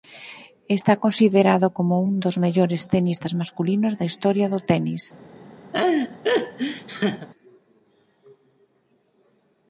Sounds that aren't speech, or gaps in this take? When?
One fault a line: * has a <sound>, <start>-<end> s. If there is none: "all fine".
* has a laugh, 5.7-7.3 s